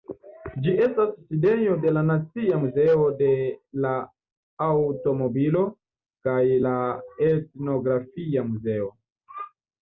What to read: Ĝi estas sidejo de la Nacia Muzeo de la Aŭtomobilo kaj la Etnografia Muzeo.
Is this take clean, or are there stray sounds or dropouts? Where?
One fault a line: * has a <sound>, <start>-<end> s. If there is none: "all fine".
all fine